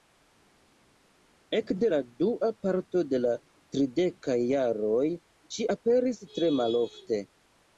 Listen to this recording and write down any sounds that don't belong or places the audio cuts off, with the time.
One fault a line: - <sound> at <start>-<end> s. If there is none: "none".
none